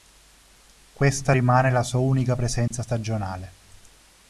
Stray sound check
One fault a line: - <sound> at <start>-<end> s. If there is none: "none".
- dropout at 2.7-2.7 s